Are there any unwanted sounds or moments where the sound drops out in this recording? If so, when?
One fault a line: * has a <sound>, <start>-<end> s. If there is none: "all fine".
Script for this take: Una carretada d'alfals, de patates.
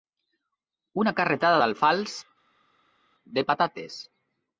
all fine